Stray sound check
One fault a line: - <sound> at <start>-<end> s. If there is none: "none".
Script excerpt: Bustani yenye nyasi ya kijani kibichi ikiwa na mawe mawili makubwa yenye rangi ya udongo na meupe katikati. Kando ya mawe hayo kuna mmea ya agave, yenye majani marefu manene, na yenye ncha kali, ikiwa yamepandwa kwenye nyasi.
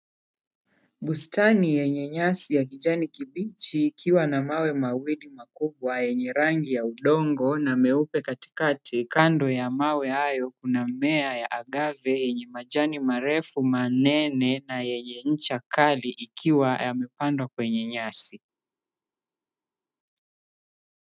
none